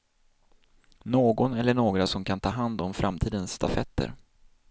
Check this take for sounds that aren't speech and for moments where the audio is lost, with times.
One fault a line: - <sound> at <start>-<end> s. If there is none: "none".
none